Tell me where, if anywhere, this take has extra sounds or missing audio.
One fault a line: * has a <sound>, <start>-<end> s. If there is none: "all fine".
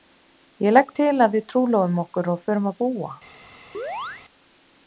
* has a chirp, 3.7-4.2 s